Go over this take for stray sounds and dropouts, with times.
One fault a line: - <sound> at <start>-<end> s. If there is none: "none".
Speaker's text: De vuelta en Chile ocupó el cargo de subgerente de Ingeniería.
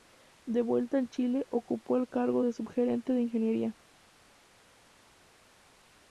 none